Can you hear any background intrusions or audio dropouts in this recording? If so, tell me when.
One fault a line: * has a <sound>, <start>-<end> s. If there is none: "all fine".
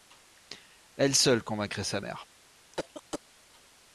* has a cough, 2.7-3.2 s